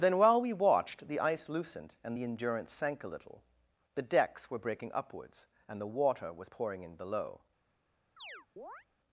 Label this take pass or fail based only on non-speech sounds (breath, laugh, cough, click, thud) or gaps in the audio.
fail